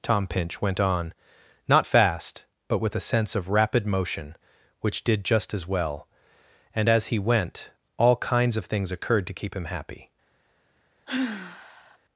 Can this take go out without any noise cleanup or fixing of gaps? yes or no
no